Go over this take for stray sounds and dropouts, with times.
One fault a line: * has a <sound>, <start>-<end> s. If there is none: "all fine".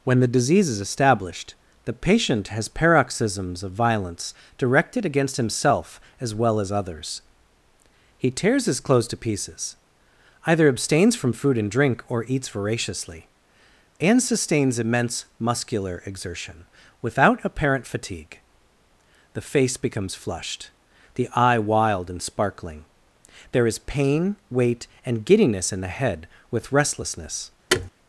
* has a thud, 27.7-27.9 s